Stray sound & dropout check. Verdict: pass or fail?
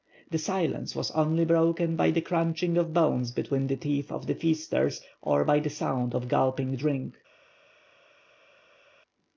pass